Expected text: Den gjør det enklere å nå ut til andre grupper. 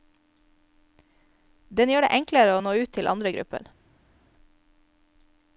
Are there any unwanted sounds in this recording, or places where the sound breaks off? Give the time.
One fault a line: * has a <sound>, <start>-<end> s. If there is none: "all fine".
all fine